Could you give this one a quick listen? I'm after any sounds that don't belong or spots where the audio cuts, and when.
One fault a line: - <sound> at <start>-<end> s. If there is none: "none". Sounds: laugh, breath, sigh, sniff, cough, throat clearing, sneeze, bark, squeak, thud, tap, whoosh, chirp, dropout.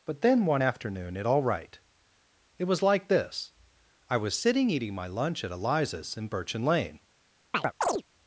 - chirp at 7.5-8.0 s